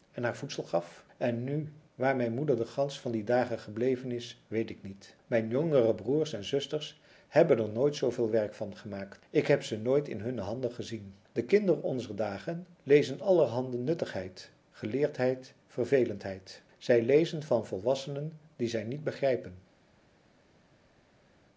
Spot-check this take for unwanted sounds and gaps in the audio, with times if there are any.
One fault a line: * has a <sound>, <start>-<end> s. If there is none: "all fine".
all fine